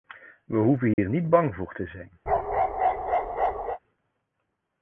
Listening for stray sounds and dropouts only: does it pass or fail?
fail